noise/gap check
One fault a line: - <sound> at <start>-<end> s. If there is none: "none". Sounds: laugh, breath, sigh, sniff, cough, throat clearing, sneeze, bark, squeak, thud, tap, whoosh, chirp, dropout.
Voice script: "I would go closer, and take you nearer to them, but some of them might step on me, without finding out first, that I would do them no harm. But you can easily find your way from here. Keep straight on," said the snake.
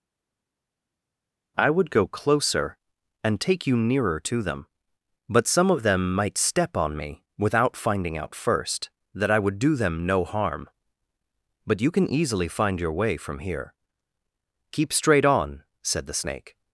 none